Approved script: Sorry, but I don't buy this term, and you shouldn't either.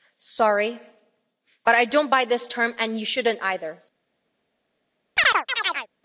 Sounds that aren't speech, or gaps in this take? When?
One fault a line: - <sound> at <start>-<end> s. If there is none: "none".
- chirp at 5.2-5.9 s